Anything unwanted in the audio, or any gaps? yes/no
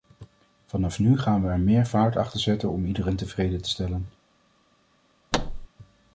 yes